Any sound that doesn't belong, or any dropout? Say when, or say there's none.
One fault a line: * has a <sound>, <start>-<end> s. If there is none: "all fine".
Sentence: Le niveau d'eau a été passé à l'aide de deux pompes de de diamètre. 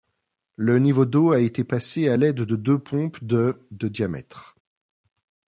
all fine